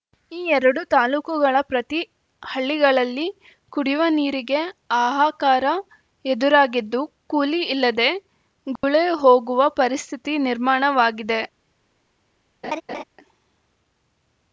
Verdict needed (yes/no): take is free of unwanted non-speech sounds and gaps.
no